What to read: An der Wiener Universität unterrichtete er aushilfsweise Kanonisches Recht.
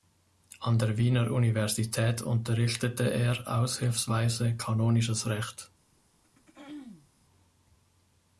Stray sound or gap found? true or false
true